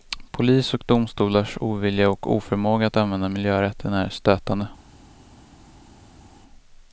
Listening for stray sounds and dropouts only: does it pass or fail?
pass